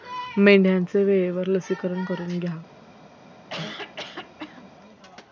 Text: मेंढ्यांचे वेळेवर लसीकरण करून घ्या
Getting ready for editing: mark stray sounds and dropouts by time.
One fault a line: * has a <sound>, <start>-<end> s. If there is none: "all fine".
* has a cough, 3.5-4.7 s